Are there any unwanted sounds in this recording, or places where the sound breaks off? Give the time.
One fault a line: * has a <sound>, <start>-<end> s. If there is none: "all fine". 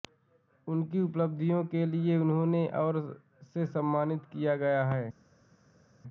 all fine